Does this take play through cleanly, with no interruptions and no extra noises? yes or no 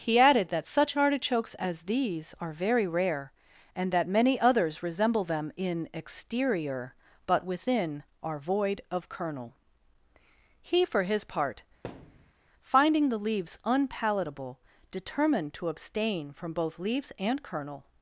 no